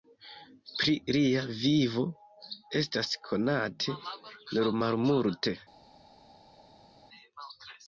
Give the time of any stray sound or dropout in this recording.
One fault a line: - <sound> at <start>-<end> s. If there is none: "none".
none